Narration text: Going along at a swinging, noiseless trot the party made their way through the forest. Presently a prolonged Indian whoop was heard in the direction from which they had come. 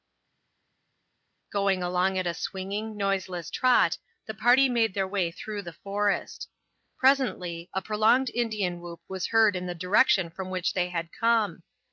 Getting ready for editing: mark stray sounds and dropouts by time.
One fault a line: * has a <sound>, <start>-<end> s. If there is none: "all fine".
all fine